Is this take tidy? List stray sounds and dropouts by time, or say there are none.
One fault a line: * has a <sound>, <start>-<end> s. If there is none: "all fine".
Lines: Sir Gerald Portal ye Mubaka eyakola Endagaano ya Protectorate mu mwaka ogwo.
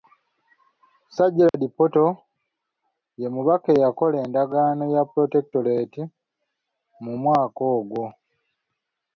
* has a dropout, 1.5-1.5 s